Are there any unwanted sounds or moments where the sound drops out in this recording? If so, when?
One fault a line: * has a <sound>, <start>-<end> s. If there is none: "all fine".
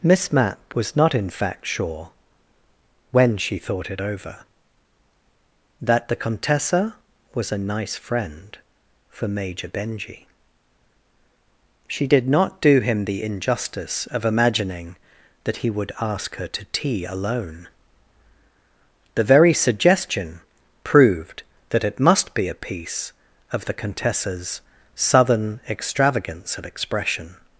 all fine